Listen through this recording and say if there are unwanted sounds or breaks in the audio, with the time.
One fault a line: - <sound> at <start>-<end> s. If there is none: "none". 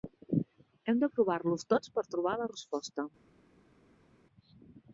none